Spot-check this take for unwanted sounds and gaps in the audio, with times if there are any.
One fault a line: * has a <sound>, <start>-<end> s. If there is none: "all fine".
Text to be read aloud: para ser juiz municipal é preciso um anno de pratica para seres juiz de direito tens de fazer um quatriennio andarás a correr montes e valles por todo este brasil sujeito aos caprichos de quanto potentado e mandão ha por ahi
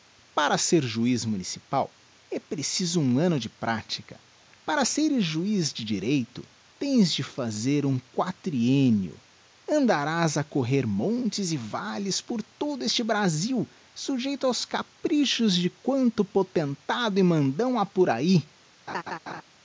* has a laugh, 18.9-19.4 s